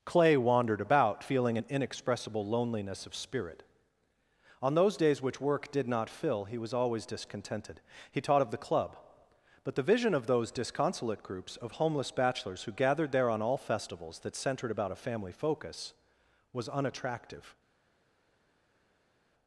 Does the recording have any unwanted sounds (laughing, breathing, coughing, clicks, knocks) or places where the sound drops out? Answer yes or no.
no